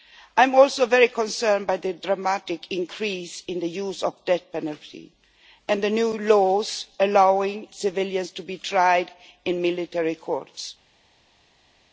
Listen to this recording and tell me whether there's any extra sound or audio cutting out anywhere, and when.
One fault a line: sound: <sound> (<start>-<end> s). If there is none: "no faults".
no faults